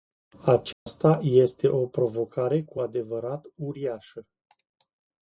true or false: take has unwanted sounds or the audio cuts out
true